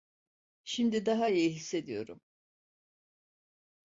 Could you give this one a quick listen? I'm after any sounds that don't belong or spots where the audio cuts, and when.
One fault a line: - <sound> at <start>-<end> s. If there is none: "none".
none